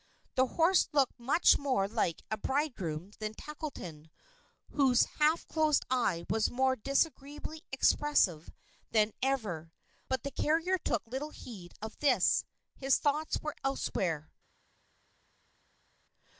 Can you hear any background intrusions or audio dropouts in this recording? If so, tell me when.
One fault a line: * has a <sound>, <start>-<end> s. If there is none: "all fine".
all fine